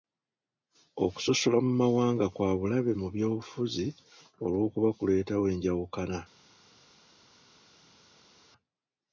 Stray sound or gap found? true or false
false